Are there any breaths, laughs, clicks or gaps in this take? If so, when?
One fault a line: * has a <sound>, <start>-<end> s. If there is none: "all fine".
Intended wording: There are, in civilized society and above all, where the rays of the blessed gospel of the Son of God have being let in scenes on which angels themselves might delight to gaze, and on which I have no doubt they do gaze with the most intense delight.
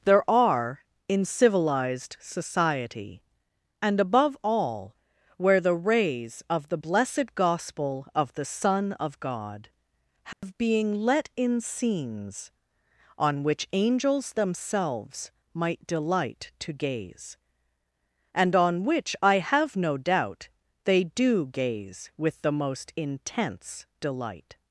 * has a dropout, 10.3-10.4 s